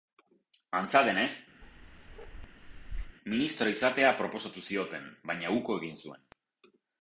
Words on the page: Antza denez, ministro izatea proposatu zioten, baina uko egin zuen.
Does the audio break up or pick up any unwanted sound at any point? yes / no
yes